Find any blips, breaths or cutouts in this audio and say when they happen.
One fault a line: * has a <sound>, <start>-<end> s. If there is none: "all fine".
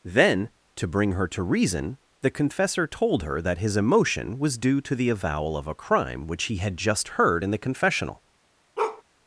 * has a bark, 8.8-9.0 s